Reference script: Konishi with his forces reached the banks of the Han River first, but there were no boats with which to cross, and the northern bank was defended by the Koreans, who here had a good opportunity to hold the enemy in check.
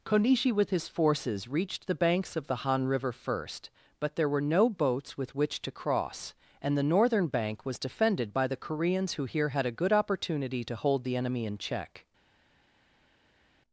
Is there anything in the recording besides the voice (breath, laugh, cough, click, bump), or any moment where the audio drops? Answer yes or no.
no